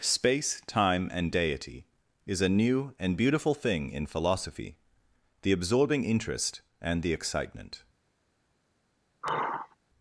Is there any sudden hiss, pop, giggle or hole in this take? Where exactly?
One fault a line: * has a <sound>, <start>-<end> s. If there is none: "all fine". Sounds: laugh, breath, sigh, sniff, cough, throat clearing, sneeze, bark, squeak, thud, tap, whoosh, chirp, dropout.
* has a sigh, 9.2-9.8 s